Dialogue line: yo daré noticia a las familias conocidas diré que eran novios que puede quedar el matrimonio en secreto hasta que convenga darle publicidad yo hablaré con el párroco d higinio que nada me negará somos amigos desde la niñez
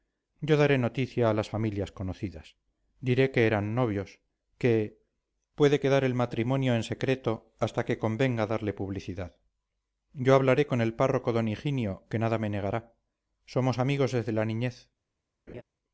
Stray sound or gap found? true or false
true